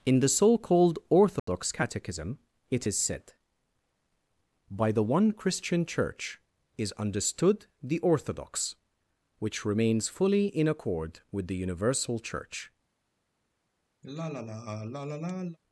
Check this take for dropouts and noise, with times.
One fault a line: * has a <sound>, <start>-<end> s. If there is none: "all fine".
* has a dropout, 1.4-1.5 s
* has a sigh, 14.0-15.6 s